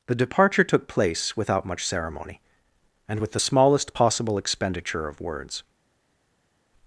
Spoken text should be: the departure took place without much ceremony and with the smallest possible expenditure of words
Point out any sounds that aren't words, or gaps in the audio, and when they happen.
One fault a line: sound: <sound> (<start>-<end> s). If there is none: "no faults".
no faults